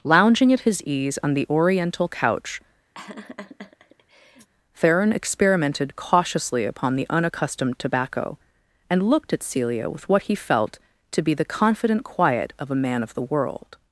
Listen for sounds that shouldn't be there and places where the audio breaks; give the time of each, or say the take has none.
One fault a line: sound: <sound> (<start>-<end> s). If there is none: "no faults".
sound: laugh (2.9-4.5 s)